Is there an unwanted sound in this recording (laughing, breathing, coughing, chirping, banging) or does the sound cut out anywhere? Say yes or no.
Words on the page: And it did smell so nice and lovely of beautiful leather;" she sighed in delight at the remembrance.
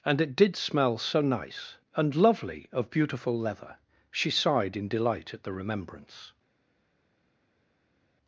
no